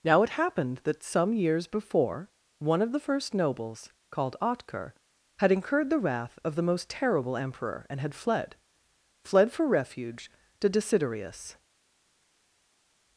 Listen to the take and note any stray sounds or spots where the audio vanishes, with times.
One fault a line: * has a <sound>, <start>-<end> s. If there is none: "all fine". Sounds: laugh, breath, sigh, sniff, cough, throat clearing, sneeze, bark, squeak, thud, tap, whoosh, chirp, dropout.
all fine